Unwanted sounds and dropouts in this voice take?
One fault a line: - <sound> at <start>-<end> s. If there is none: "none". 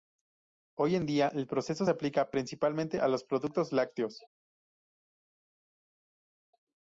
none